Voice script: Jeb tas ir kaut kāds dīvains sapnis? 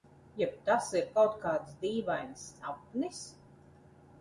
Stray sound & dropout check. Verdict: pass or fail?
pass